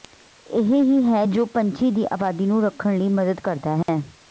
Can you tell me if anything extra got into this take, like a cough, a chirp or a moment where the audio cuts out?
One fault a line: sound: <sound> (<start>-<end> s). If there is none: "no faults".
sound: dropout (3.8-3.9 s)